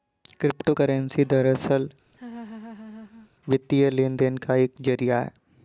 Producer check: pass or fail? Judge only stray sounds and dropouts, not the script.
fail